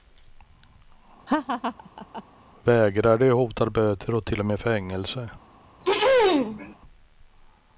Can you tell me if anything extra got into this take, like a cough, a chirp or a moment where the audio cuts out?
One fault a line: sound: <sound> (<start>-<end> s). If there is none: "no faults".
sound: laugh (1.3-2.2 s)
sound: throat clearing (5.8-6.8 s)